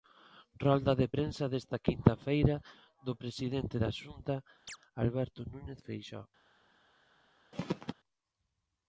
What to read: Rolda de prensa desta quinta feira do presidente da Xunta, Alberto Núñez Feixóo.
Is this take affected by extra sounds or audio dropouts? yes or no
yes